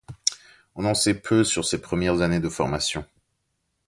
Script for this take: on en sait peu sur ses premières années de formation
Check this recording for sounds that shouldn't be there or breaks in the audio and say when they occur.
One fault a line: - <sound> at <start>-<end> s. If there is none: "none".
none